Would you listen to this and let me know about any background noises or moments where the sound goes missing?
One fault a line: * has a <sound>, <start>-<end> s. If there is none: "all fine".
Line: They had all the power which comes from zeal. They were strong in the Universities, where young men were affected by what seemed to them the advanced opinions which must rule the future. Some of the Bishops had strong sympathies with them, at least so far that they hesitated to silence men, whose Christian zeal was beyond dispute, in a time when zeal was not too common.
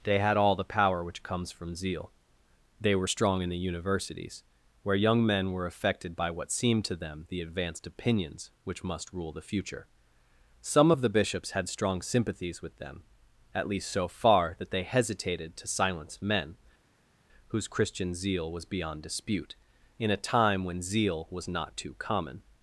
all fine